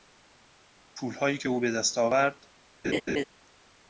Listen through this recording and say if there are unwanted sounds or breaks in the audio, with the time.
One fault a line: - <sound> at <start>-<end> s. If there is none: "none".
- laugh at 2.8-3.2 s